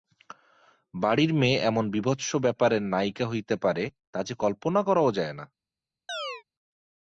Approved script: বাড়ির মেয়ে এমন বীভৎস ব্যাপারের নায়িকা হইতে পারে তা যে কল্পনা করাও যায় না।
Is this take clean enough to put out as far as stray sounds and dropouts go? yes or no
no